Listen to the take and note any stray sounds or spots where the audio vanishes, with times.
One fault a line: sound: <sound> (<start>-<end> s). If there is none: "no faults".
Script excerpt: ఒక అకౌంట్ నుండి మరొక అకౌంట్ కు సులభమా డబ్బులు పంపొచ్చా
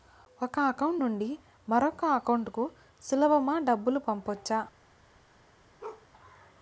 sound: bark (5.8-6.1 s)